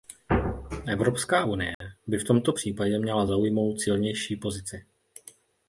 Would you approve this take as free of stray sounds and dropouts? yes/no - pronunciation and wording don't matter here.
no